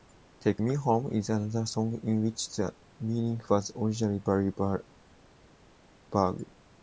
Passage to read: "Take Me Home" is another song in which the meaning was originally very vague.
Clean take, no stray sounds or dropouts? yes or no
yes